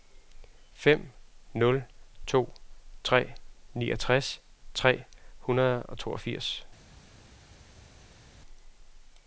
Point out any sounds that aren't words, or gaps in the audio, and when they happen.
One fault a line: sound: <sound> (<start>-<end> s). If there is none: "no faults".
no faults